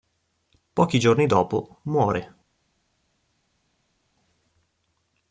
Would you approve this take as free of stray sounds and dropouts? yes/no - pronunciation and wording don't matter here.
yes